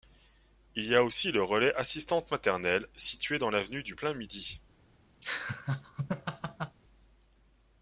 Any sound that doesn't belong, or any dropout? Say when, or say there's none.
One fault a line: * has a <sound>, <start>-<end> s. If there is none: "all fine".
* has a laugh, 5.2-6.8 s